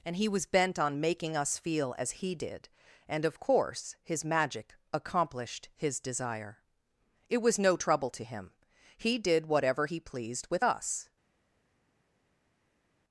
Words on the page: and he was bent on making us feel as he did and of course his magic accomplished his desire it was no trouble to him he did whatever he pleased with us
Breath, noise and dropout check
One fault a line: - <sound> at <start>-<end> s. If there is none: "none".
none